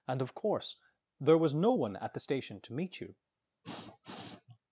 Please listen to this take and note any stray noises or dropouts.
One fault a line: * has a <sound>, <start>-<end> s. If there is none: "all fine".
* has a sniff, 3.6-4.6 s